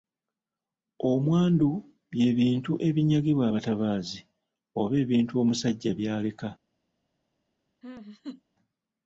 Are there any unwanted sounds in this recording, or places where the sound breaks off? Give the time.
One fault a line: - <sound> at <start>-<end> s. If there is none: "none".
- laugh at 7.8-8.4 s